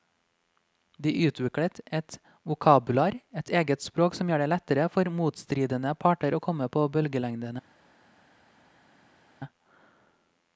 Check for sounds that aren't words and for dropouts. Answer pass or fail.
pass